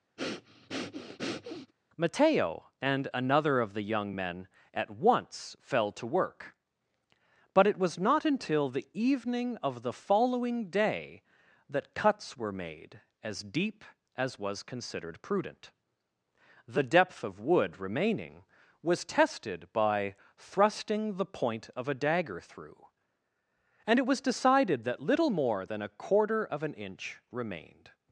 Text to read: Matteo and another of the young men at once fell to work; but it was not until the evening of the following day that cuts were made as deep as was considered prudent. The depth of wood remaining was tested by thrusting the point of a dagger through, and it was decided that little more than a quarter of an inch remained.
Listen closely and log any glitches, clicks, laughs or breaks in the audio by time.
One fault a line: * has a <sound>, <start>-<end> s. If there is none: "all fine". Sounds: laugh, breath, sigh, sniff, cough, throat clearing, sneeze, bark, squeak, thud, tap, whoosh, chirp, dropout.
* has a breath, 0.2-1.7 s